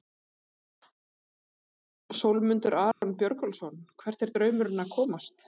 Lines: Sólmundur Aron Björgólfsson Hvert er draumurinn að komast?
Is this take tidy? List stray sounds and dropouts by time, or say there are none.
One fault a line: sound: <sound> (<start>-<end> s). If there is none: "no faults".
sound: dropout (2.9-3.0 s)